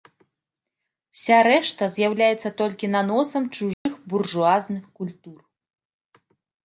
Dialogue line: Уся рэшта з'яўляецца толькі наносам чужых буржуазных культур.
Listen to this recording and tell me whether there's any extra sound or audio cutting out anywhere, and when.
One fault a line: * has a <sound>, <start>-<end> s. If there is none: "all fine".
* has a dropout, 3.7-3.9 s